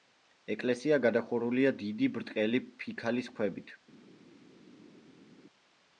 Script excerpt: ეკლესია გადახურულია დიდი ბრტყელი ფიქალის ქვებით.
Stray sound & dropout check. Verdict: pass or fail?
pass